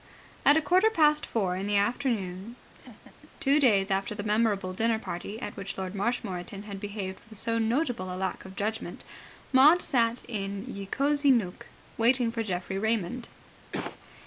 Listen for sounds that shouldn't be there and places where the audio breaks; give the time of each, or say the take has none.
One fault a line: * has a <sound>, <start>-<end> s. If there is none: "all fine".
* has a laugh, 2.7-3.3 s
* has a cough, 13.7-14.0 s